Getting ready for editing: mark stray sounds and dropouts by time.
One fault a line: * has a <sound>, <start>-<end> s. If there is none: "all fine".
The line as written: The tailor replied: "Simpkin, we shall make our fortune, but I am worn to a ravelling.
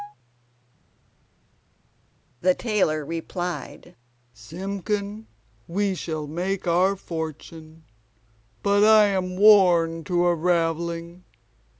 all fine